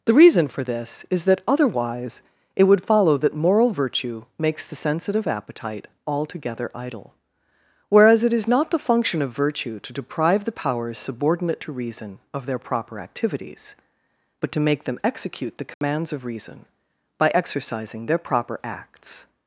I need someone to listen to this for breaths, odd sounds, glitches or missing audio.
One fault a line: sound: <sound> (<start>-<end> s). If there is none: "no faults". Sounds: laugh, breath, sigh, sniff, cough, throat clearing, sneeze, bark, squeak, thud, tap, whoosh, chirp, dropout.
sound: dropout (15.7-15.8 s)